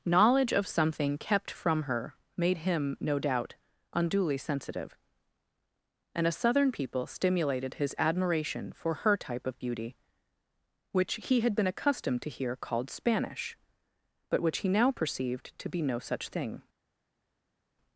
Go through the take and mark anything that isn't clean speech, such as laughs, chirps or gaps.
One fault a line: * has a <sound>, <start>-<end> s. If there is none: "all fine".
all fine